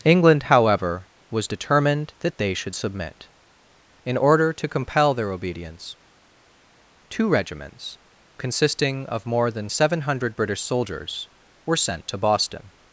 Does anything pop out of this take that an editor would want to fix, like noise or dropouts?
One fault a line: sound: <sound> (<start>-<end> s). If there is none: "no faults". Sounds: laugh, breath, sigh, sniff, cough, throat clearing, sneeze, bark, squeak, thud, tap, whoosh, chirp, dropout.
no faults